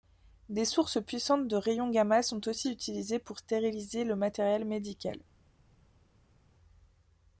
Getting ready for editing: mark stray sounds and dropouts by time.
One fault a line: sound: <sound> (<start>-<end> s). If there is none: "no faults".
no faults